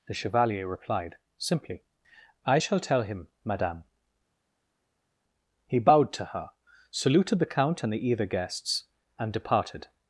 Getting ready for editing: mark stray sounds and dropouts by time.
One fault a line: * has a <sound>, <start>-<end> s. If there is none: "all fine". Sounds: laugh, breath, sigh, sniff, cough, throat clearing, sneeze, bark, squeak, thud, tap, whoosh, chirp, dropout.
all fine